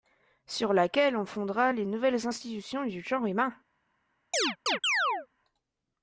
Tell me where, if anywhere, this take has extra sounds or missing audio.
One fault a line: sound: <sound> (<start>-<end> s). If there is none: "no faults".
sound: chirp (4.3-5.3 s)